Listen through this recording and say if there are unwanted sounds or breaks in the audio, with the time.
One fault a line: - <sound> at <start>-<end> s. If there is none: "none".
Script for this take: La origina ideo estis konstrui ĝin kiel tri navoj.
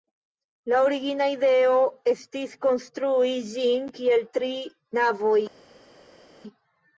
none